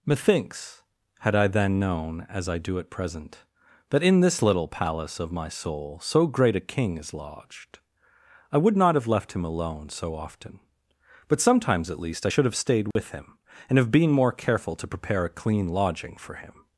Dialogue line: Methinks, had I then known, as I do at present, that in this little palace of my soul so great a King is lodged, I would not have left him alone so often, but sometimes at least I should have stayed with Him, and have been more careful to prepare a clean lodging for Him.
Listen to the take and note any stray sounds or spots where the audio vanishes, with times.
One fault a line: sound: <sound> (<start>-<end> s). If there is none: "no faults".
sound: dropout (12.9-13.0 s)